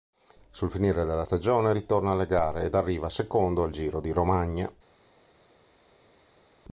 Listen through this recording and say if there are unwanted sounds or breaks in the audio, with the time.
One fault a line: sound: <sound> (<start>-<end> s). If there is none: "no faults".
no faults